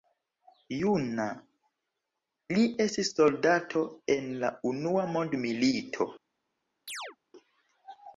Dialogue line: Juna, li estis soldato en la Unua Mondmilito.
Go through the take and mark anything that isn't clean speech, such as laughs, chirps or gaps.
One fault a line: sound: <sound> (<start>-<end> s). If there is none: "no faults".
sound: chirp (6.9-7.2 s)